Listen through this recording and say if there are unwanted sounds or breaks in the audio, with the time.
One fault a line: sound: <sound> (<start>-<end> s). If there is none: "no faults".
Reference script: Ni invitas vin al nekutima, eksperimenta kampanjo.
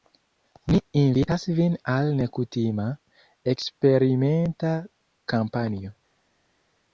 no faults